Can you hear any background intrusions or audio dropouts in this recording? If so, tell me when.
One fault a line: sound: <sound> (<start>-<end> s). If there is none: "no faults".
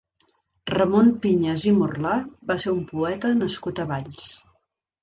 no faults